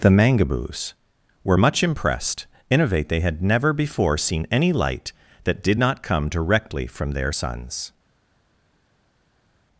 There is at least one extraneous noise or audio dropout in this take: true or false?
false